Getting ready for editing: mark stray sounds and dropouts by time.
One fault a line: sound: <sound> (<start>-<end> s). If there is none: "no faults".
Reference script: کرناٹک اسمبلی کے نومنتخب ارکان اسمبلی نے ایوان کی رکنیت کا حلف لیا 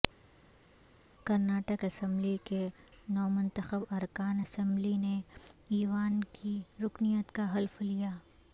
no faults